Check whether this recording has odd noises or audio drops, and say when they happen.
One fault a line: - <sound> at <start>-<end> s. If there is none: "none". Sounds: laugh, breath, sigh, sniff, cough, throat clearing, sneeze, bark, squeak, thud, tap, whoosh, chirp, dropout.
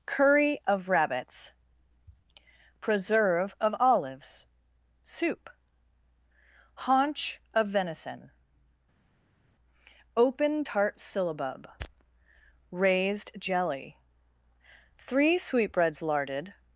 none